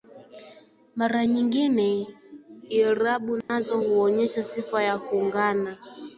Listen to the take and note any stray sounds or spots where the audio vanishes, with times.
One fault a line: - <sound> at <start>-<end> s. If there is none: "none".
- dropout at 3.4-3.5 s